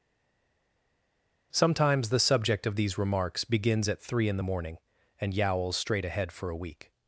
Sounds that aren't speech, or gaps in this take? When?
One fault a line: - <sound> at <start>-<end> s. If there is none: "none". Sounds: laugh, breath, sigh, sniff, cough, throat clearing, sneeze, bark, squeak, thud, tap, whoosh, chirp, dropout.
none